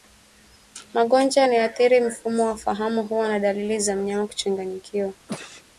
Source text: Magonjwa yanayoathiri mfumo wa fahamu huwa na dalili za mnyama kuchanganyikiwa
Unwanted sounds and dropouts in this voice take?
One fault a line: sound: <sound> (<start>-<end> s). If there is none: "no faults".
sound: sneeze (5.3-5.6 s)